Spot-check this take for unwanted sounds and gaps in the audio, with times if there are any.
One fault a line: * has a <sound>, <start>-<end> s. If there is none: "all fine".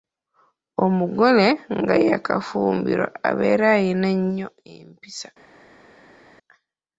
all fine